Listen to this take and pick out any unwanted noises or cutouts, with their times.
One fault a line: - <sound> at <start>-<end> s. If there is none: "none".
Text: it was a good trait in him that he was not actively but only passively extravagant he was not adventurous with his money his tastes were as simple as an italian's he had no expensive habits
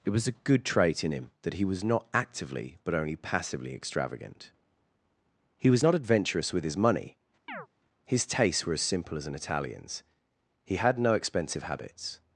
- chirp at 7.5-7.7 s